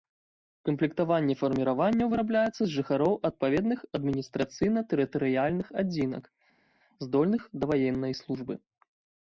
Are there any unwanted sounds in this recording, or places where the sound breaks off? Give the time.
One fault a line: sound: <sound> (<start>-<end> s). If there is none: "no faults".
no faults